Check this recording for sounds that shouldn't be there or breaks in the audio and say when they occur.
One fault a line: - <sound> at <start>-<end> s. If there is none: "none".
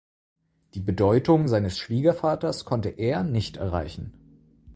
none